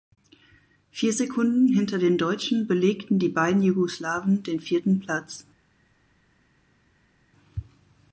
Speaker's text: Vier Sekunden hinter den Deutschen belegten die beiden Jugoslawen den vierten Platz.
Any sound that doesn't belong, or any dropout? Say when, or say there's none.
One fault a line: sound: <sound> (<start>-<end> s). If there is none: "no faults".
no faults